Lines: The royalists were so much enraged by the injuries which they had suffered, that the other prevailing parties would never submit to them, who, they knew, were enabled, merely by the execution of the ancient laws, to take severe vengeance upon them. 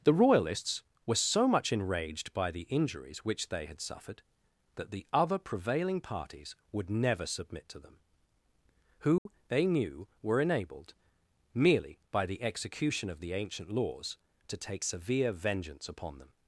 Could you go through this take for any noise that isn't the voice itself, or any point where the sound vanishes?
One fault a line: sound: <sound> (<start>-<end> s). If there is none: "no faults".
sound: dropout (9.2-9.3 s)